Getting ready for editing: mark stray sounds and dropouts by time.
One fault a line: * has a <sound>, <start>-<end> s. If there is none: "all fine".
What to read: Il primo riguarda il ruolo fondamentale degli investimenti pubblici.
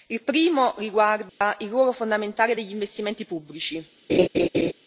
* has a dropout, 1.3-1.4 s
* has a laugh, 4.1-4.7 s